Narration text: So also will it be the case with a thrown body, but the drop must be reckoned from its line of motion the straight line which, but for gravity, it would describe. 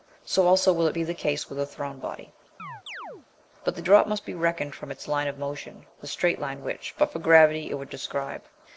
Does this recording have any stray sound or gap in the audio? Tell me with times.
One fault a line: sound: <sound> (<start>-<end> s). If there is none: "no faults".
sound: chirp (2.6-3.3 s)